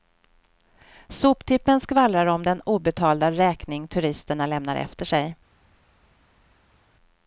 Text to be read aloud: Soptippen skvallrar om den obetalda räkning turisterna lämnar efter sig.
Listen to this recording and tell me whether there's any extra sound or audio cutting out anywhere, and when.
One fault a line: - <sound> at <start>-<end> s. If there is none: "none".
none